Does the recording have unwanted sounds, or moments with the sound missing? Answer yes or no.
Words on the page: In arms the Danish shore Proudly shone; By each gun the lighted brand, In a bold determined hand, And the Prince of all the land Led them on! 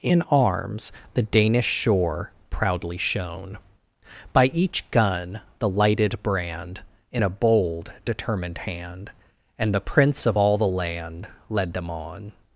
no